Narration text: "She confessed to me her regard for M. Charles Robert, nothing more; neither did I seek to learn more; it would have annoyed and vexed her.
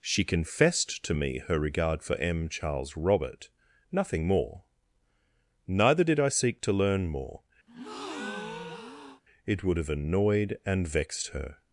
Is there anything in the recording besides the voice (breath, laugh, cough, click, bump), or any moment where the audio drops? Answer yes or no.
yes